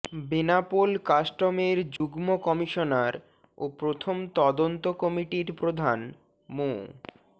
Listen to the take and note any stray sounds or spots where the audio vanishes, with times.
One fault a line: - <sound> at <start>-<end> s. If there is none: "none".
- dropout at 2.0-2.0 s